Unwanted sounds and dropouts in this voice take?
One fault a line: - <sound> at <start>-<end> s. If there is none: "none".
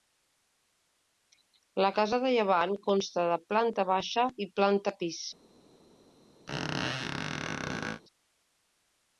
- squeak at 6.5-8.0 s